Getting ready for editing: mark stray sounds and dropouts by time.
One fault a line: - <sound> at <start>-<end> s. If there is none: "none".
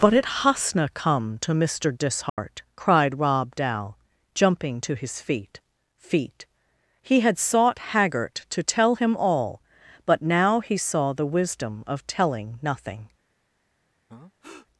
- dropout at 2.3-2.4 s
- breath at 14.1-14.7 s